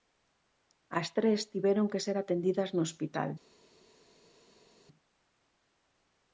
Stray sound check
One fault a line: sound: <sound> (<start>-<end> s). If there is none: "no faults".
no faults